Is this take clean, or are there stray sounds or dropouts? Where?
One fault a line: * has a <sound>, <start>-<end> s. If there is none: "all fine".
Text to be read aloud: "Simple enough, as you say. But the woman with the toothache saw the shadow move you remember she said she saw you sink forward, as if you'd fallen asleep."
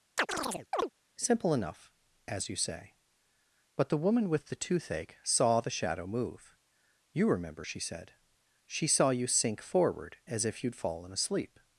* has a chirp, 0.2-0.9 s